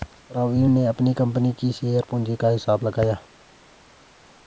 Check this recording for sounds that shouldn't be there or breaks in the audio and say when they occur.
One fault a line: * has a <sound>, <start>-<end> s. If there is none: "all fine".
all fine